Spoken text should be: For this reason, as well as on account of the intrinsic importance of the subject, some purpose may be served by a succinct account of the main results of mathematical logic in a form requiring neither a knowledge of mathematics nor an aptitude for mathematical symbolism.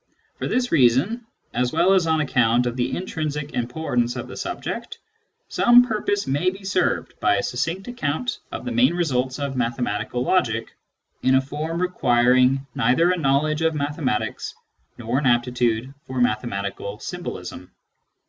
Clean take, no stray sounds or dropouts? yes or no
yes